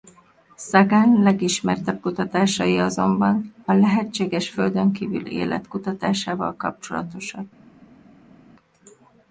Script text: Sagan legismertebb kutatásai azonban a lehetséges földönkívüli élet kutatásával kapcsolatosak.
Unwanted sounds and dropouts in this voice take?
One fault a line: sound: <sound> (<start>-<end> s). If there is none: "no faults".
no faults